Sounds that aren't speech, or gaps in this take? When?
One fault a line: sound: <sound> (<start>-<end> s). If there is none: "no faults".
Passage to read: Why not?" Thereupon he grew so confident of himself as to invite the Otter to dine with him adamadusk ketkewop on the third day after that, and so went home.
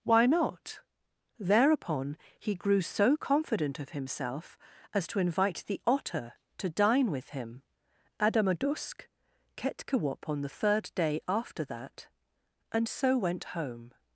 no faults